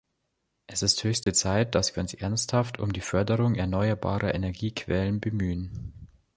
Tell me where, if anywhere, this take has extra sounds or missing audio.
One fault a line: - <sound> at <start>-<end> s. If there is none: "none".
- dropout at 1.2-1.3 s